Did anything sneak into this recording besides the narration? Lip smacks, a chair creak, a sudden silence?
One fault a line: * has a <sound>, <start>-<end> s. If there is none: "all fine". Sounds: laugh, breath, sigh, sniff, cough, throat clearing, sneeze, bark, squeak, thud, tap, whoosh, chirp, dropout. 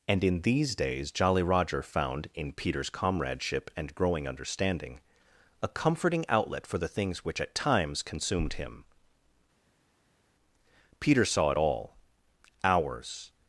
all fine